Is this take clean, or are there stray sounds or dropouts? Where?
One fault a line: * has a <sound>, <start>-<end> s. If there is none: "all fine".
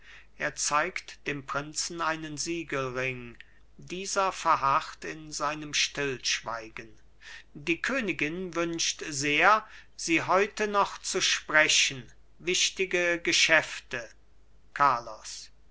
all fine